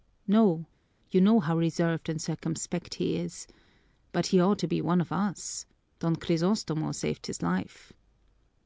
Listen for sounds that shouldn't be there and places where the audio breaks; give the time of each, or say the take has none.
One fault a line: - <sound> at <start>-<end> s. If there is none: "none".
none